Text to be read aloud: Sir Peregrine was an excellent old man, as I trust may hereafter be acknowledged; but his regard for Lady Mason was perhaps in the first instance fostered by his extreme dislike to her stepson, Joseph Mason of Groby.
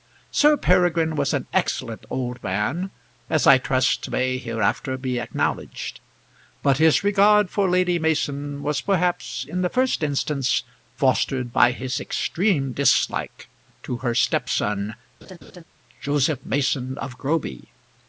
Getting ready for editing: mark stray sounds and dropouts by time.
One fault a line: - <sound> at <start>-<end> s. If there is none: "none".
- laugh at 15.2-15.6 s